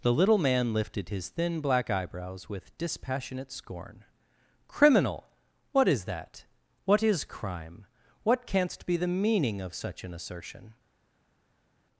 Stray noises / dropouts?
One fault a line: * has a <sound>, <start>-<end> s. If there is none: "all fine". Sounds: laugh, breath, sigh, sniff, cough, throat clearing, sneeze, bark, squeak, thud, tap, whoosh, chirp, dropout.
all fine